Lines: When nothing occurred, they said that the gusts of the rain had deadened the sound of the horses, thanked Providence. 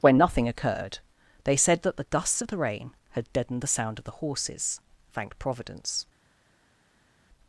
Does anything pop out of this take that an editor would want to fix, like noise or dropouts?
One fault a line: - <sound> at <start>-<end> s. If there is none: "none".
none